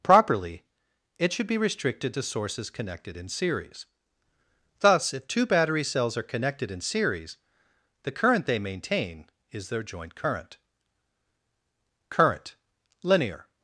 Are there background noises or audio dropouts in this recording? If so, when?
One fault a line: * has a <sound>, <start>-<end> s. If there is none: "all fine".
all fine